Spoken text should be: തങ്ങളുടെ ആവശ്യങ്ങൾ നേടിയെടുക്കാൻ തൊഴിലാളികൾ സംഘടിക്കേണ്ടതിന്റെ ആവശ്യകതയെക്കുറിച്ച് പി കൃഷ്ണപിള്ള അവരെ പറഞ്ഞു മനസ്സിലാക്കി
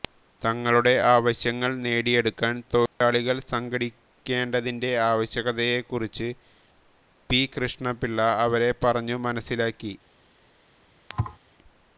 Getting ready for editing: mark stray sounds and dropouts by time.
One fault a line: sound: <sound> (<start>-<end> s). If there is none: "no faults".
sound: dropout (2.9-3.0 s)
sound: thud (11.1-11.4 s)